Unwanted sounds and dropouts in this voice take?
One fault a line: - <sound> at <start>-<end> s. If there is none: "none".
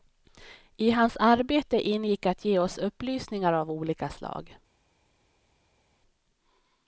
none